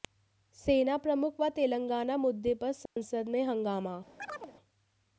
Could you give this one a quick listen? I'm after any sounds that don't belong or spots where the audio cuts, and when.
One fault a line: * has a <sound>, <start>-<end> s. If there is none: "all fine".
* has a dropout, 2.9-3.0 s
* has a chirp, 4.2-4.5 s